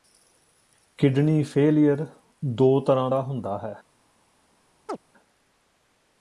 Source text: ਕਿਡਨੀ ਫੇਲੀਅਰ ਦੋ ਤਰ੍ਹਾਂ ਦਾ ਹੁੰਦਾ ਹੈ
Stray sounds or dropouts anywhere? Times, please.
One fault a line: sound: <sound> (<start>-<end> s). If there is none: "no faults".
sound: chirp (4.9-5.0 s)